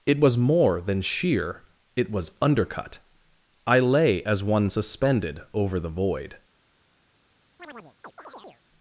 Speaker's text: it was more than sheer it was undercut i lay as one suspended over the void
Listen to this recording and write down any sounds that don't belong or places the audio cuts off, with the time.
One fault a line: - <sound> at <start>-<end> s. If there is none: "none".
- chirp at 7.6-8.6 s